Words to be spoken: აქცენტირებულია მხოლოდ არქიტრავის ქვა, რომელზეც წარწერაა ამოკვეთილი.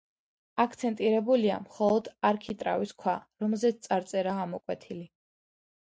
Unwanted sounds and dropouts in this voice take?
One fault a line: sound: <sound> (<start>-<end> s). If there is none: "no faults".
no faults